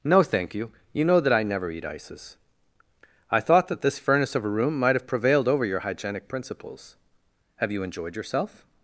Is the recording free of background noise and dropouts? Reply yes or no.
yes